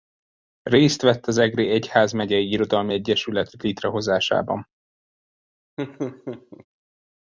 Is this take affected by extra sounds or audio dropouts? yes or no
yes